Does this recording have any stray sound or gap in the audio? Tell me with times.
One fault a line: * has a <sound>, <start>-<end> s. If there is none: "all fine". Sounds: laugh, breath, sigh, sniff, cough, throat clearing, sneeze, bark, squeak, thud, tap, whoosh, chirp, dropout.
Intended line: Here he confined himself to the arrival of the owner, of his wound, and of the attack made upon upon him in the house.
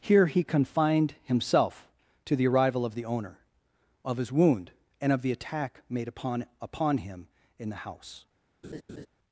* has a laugh, 8.6-9.1 s